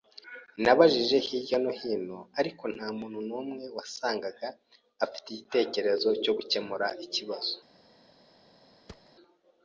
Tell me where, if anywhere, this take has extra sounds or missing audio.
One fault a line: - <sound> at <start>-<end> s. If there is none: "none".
- thud at 8.9-9.1 s